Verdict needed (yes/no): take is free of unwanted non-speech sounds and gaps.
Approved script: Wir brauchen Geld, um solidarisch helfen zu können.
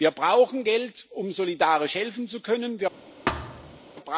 no